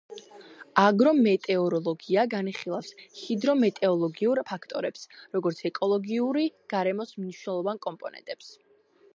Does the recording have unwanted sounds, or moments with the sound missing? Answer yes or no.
no